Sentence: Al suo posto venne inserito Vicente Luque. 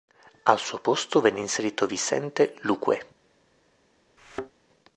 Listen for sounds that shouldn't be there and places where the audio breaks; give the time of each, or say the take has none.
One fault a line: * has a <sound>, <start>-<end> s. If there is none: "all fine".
* has a thud, 4.2-4.5 s